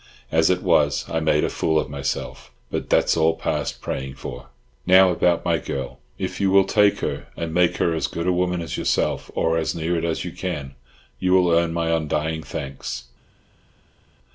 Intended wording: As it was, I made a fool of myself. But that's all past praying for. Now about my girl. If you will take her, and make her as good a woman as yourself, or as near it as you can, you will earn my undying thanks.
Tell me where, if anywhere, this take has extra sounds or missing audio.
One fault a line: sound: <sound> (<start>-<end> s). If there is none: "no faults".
no faults